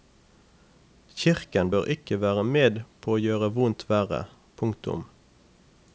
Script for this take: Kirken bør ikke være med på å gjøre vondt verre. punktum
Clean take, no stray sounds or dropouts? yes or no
yes